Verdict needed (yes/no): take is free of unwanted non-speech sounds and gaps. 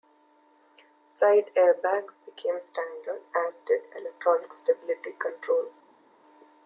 yes